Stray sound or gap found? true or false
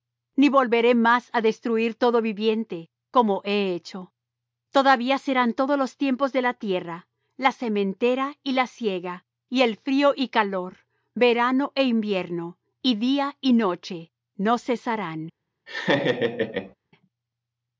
true